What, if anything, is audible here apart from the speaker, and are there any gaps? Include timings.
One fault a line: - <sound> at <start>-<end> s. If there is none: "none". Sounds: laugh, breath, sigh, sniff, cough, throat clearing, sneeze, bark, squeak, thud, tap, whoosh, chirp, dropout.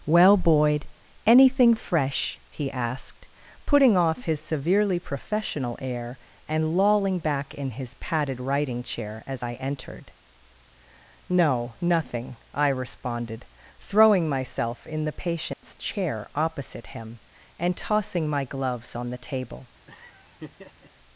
- dropout at 15.5-15.6 s
- laugh at 19.9-20.9 s